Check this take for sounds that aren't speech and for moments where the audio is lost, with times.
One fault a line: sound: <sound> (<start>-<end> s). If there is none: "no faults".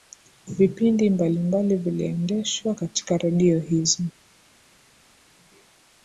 no faults